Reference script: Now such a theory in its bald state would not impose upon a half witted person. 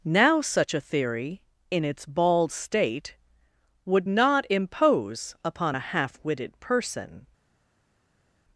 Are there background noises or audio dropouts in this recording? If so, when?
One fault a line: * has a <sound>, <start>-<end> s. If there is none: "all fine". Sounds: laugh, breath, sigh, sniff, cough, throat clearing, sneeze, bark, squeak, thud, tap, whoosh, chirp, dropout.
all fine